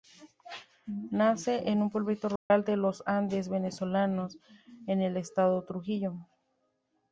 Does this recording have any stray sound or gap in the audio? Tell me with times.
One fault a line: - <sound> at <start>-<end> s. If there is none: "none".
- dropout at 2.4-2.5 s